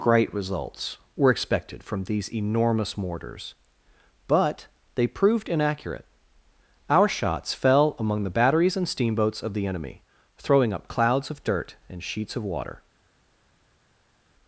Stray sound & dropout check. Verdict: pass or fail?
pass